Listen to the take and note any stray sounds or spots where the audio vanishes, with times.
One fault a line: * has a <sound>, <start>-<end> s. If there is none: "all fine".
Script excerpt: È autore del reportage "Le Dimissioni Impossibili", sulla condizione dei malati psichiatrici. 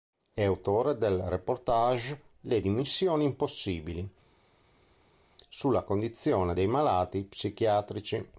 all fine